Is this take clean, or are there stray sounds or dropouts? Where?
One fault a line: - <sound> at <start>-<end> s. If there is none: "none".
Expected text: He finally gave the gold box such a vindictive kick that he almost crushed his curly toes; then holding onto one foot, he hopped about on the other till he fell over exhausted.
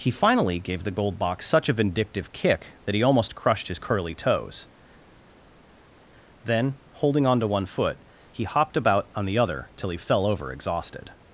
none